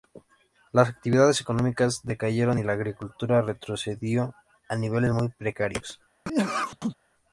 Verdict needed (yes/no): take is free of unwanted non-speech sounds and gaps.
no